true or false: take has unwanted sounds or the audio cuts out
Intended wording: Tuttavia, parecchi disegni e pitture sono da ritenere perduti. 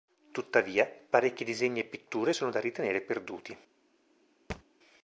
true